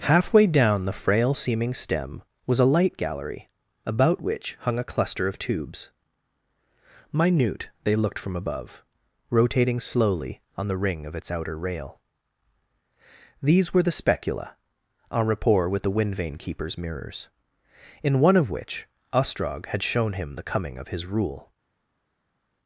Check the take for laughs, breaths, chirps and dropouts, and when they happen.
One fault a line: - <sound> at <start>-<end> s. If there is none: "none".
none